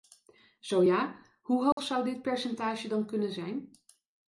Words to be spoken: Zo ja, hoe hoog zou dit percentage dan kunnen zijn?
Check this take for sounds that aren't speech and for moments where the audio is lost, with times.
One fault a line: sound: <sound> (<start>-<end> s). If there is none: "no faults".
sound: dropout (1.7-1.8 s)